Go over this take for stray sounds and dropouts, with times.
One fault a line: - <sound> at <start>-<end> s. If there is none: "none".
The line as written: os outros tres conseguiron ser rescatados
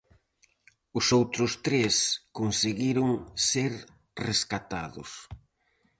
none